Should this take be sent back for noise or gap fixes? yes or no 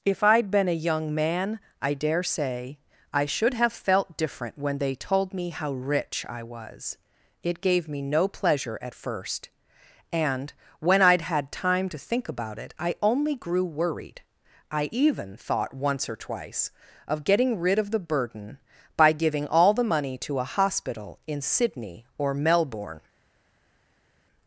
no